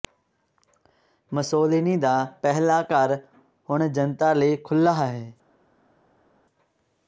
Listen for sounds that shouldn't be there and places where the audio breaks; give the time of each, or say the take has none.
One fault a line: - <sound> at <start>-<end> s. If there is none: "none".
none